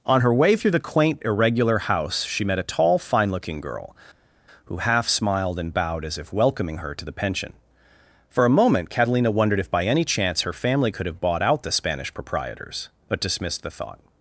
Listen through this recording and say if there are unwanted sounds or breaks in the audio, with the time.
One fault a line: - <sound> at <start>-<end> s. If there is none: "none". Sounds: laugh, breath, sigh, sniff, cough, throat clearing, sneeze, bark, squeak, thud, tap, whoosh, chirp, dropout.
none